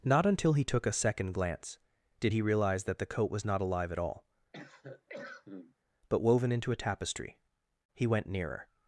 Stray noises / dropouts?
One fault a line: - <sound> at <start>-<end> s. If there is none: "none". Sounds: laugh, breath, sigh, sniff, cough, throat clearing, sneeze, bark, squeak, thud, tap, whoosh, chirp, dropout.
- cough at 4.5-5.7 s